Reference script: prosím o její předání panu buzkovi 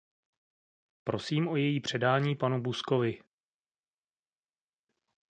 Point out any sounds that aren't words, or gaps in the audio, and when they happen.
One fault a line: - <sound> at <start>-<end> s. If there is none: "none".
none